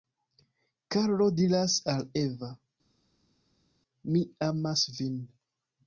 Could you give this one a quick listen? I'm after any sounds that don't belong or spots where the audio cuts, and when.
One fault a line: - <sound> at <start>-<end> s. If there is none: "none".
none